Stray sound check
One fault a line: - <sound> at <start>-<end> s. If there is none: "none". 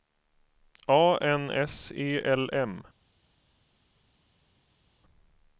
none